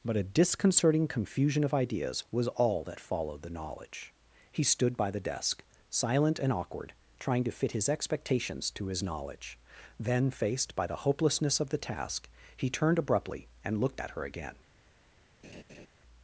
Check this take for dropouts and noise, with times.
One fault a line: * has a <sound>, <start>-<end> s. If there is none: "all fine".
* has a laugh, 15.4-15.9 s